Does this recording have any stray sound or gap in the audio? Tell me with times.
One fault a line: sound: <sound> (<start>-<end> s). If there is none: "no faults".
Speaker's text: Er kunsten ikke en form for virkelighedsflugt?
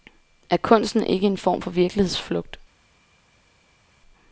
no faults